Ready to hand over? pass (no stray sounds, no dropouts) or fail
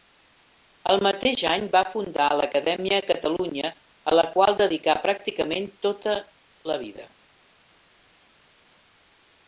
pass